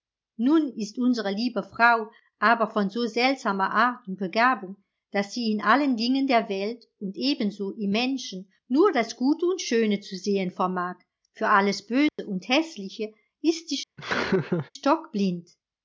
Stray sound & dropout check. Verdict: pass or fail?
fail